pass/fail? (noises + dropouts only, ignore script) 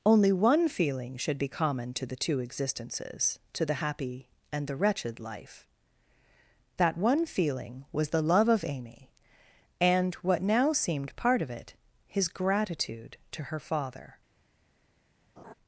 fail